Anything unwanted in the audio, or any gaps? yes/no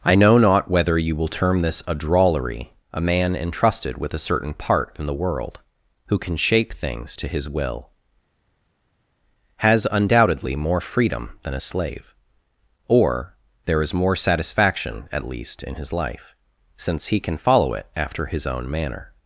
no